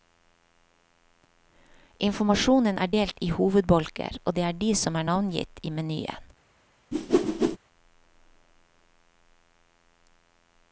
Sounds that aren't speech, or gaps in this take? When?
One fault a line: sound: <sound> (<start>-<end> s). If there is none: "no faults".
sound: whoosh (6.9-7.6 s)